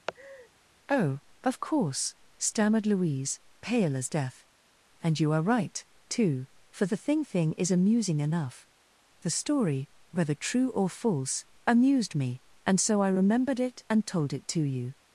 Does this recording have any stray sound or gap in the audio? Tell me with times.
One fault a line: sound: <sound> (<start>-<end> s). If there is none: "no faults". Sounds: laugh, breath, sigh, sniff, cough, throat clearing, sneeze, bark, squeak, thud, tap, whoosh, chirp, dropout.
sound: laugh (0.1-0.5 s)